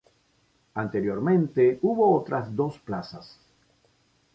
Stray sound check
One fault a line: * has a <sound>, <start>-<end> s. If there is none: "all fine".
all fine